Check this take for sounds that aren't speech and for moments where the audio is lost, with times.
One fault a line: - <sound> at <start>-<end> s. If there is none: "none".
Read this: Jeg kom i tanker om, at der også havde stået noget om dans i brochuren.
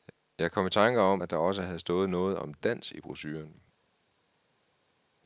none